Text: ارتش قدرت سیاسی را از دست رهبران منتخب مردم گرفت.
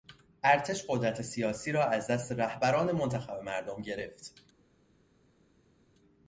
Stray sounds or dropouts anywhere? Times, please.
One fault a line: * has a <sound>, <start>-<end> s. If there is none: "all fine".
all fine